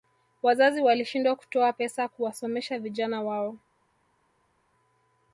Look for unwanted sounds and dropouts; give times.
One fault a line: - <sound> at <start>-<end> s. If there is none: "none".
none